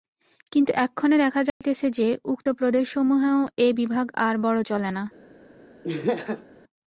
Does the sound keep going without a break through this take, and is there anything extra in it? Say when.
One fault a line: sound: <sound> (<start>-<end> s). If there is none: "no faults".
sound: dropout (1.5-1.6 s)
sound: laugh (5.8-6.5 s)